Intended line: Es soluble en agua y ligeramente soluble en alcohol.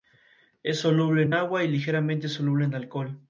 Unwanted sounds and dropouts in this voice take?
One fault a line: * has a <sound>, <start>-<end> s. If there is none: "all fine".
all fine